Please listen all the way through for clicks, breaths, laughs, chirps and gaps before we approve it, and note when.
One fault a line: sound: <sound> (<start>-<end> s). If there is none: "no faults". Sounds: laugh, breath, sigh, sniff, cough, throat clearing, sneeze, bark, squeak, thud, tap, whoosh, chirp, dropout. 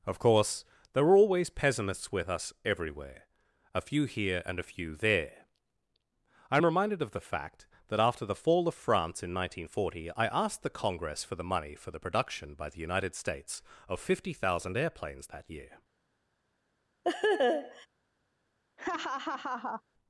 sound: laugh (17.0-17.9 s)
sound: laugh (18.8-19.8 s)